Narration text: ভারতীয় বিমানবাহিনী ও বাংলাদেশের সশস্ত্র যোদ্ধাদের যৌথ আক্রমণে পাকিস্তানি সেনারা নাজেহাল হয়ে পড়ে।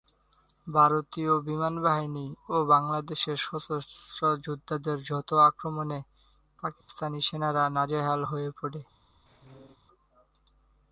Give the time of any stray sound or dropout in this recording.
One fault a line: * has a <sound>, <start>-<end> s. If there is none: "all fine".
* has a dropout, 6.8-6.9 s
* has a squeak, 9.3-9.8 s